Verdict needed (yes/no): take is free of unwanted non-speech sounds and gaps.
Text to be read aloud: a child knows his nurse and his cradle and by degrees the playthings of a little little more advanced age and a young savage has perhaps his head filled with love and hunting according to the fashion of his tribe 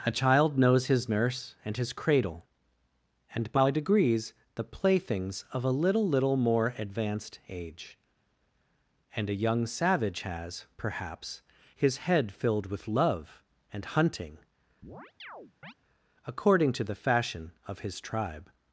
no